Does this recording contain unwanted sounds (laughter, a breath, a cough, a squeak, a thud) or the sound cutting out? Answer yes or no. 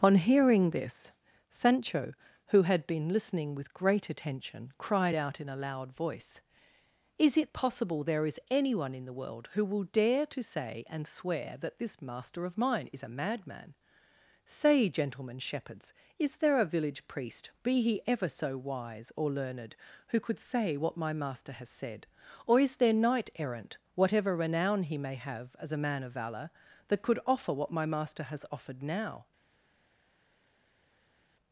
no